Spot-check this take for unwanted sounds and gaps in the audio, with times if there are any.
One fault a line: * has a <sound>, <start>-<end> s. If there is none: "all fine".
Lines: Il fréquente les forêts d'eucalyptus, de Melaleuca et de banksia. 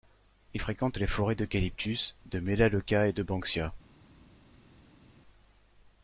all fine